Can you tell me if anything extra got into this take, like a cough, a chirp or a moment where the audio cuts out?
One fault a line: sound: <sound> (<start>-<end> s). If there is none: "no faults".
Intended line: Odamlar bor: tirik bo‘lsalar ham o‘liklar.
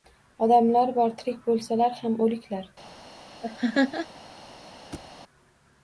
sound: laugh (3.4-4.1 s)
sound: thud (4.9-5.1 s)